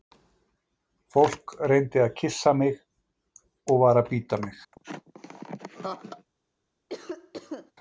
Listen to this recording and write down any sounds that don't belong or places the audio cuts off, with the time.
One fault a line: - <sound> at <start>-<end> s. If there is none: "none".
- laugh at 4.7-6.3 s
- cough at 6.9-7.7 s